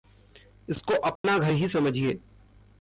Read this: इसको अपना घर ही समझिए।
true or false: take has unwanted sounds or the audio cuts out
true